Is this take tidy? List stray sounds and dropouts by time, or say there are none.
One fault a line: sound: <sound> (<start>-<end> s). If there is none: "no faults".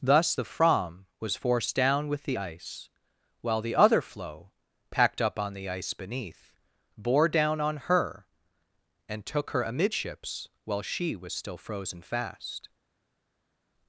no faults